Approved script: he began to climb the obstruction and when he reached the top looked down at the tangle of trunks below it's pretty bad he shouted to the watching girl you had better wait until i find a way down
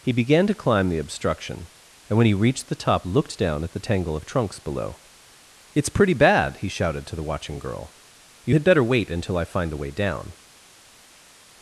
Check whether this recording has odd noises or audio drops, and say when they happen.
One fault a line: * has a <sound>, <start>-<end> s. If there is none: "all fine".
all fine